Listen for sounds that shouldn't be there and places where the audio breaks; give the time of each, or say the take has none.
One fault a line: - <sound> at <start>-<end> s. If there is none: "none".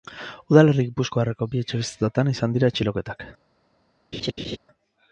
- laugh at 4.1-4.6 s